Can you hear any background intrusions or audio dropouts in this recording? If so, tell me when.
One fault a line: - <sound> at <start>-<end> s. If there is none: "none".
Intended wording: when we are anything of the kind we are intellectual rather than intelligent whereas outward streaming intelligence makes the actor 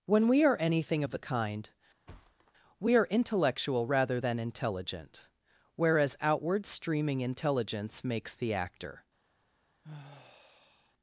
- thud at 2.1-2.5 s
- sigh at 9.8-10.9 s